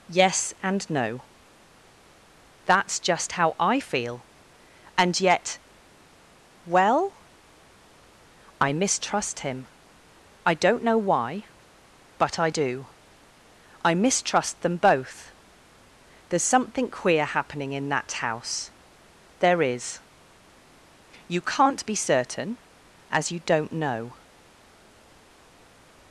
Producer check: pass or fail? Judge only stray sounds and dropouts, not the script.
pass